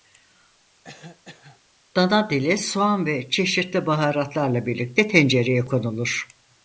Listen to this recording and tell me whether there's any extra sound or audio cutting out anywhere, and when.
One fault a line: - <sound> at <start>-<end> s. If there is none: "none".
- cough at 0.8-1.6 s